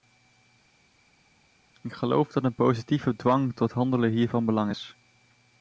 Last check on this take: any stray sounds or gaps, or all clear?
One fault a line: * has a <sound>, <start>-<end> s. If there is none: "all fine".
all fine